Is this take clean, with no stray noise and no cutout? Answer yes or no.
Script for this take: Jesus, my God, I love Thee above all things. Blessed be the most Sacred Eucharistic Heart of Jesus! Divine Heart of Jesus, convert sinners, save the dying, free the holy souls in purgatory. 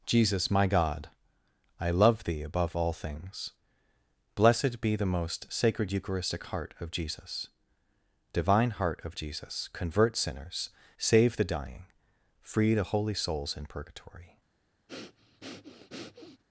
no